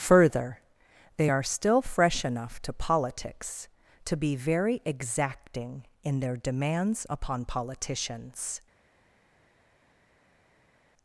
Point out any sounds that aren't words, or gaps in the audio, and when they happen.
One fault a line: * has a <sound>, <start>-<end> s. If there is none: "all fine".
all fine